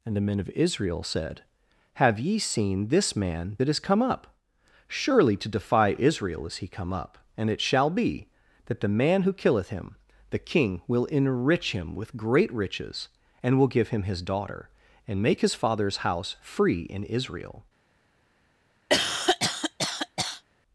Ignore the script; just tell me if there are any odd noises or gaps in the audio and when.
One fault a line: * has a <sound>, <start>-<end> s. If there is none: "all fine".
* has a cough, 18.9-20.4 s